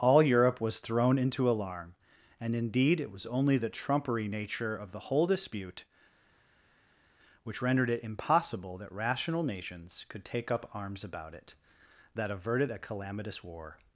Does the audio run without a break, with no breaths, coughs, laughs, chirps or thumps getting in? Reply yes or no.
yes